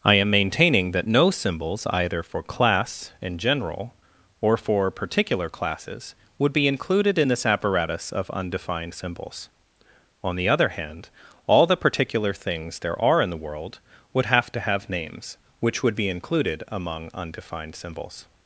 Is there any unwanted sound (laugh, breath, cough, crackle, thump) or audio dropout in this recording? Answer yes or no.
no